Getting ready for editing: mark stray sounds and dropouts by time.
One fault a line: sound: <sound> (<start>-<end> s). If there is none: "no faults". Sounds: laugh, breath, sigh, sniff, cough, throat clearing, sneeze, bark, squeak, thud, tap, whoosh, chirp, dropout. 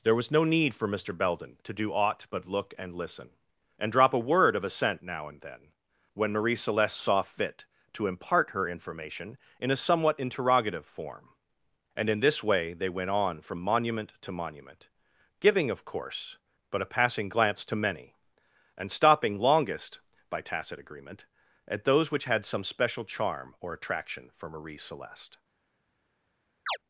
sound: chirp (26.7-26.8 s)